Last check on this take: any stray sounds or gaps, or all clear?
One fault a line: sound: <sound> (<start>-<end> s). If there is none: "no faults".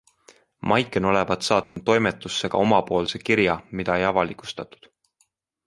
sound: dropout (1.6-1.8 s)